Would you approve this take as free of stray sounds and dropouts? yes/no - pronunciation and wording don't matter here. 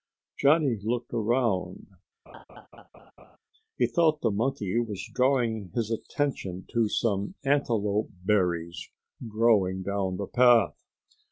no